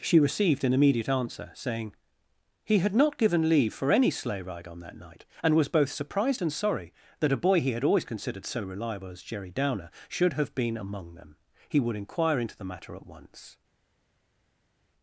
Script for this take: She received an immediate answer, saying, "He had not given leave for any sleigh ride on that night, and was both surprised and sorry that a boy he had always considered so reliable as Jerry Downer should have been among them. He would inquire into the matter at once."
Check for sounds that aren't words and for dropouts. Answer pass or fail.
pass